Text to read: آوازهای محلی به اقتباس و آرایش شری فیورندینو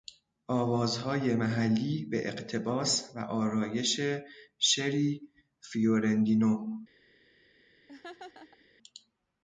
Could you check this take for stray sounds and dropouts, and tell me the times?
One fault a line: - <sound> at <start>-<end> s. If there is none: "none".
- laugh at 7.9-8.7 s